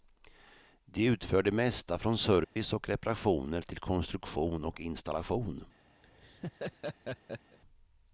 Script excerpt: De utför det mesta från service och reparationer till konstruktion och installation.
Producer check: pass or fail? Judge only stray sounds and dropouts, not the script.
fail